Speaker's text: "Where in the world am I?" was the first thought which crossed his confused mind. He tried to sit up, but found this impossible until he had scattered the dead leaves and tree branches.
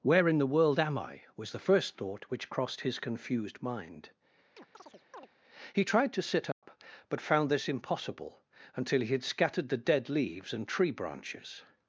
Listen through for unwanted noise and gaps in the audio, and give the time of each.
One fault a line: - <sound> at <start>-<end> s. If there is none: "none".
- chirp at 4.6-5.3 s
- dropout at 6.5-6.6 s